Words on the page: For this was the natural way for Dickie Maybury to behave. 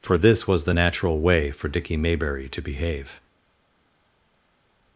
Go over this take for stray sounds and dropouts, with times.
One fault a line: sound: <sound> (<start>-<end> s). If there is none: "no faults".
no faults